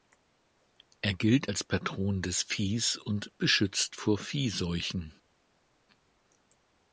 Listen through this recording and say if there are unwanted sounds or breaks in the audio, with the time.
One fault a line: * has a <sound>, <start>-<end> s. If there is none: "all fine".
all fine